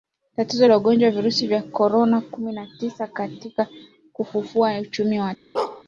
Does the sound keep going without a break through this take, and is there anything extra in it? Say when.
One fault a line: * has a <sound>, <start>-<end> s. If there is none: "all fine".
* has a bark, 5.5-5.8 s